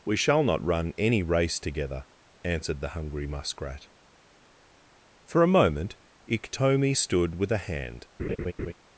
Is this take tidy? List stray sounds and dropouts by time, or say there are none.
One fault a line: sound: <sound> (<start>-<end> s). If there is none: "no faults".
sound: laugh (8.2-8.7 s)